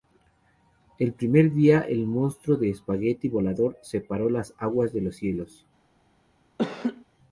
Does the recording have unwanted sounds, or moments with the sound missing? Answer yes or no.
yes